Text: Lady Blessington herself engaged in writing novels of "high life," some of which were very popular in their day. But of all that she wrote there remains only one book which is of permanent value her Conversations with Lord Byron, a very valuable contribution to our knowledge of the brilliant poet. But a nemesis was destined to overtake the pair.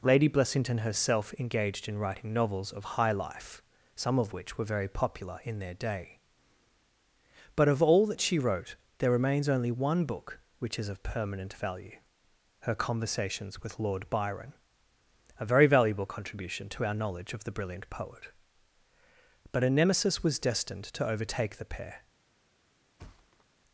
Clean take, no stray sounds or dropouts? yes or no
no